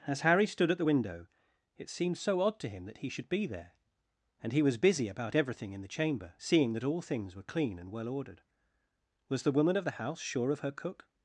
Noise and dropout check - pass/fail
pass